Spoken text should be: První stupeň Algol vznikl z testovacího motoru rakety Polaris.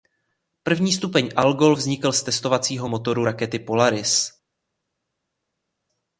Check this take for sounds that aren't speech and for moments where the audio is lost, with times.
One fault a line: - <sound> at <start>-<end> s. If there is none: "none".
none